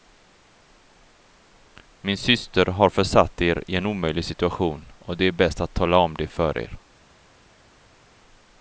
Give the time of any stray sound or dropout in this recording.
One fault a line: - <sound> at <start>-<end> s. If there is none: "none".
none